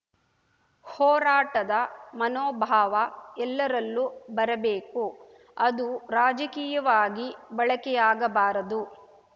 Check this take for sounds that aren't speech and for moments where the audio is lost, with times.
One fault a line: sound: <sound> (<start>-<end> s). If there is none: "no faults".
no faults